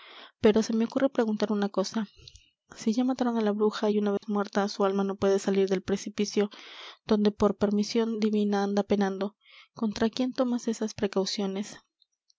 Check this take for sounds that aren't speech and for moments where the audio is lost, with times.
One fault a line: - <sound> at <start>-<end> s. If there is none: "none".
- dropout at 4.2-4.2 s